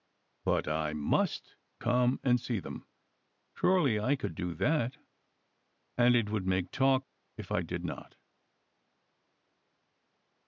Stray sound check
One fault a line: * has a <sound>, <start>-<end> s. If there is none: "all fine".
all fine